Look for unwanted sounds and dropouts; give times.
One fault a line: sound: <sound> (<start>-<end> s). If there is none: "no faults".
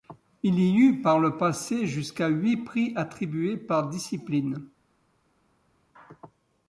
no faults